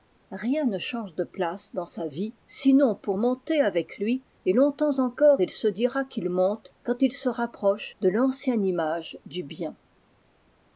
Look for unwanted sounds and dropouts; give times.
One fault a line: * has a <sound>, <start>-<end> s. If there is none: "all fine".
all fine